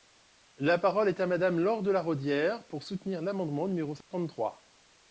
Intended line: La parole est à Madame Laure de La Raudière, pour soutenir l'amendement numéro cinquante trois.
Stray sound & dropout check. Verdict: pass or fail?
fail